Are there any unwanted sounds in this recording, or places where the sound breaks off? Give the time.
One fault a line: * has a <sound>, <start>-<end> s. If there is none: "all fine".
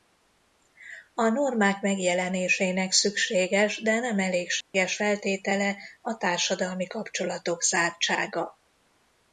* has a dropout, 4.6-4.7 s